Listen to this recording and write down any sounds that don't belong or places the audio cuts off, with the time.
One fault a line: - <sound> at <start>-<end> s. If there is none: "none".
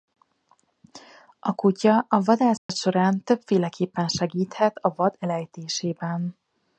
- dropout at 2.6-2.7 s